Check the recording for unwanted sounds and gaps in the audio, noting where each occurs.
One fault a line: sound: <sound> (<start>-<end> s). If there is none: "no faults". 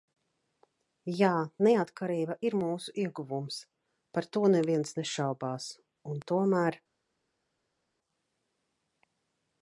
no faults